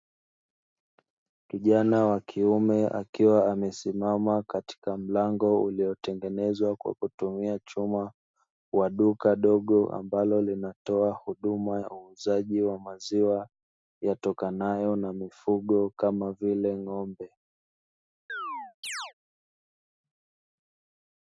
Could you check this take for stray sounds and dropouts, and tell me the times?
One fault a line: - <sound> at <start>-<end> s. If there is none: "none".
- chirp at 18.3-19.1 s